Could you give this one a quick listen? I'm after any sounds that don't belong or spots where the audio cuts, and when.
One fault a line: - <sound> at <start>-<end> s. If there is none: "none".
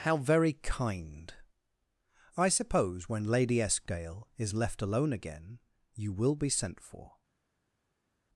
none